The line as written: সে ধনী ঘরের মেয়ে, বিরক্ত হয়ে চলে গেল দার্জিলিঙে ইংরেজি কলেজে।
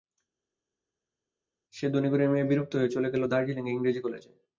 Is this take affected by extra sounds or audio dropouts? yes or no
no